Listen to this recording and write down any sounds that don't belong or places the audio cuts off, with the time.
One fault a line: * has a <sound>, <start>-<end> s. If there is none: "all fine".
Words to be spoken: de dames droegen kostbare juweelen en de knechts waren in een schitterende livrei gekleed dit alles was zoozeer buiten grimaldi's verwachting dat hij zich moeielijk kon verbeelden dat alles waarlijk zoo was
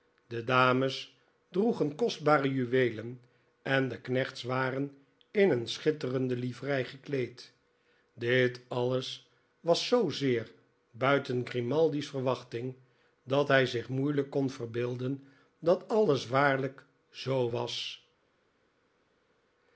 all fine